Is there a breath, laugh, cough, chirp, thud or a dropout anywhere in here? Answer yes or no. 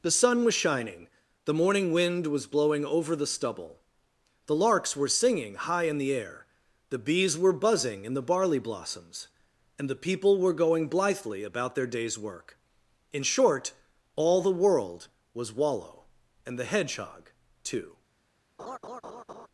yes